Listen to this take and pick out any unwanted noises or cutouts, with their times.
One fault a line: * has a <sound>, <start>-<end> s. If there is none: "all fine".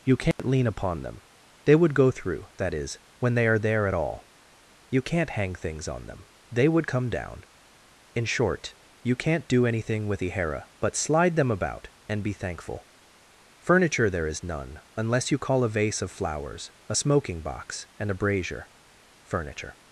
* has a dropout, 0.3-0.4 s